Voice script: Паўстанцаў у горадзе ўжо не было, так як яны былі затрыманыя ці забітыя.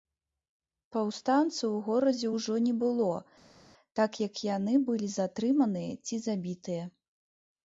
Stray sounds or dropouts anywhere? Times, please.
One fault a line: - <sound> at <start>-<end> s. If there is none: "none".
none